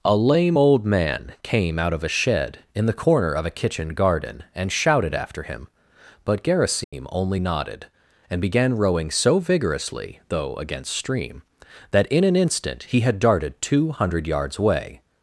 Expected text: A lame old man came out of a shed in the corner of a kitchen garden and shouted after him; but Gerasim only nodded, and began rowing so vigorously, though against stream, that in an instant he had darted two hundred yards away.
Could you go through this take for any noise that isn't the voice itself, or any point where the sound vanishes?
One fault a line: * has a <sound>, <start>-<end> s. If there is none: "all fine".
* has a dropout, 6.8-6.9 s